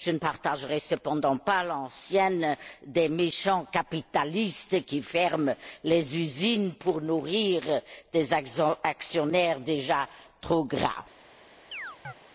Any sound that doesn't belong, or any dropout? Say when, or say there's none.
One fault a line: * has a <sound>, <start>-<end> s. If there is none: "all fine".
* has a chirp, 11.7-12.1 s